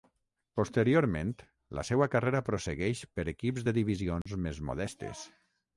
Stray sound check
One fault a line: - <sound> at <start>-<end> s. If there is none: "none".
- dropout at 4.2-4.3 s